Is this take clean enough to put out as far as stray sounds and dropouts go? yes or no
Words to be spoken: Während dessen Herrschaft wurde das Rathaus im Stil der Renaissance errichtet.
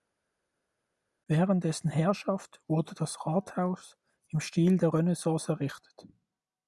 yes